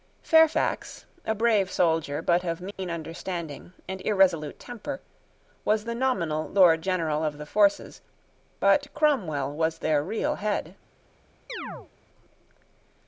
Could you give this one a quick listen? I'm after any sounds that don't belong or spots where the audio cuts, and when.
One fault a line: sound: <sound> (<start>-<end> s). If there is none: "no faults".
sound: dropout (2.7-2.8 s)
sound: chirp (11.5-11.9 s)